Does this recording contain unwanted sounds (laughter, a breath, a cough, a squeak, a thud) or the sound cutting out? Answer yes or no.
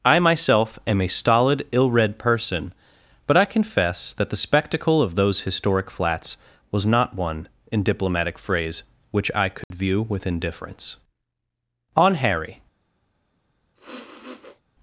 yes